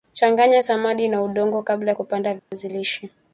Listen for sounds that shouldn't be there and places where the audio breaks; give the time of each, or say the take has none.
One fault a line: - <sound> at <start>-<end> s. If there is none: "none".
- dropout at 2.4-2.5 s